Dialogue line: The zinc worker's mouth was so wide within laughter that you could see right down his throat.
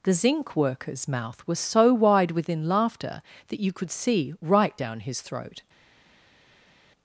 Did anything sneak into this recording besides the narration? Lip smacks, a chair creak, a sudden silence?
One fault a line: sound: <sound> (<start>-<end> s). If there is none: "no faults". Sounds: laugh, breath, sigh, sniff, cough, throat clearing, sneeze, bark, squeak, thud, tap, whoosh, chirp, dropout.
no faults